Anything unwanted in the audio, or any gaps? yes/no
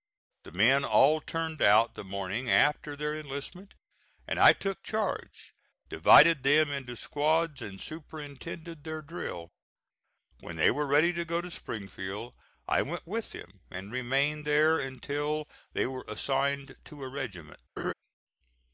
yes